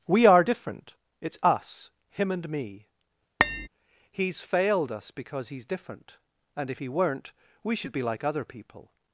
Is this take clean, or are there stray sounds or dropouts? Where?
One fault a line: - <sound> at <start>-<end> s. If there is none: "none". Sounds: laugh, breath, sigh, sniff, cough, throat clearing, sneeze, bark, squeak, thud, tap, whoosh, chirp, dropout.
- tap at 3.4-3.7 s